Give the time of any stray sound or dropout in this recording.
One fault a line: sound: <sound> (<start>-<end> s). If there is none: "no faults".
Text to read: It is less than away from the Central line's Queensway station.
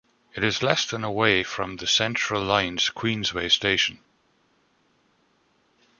no faults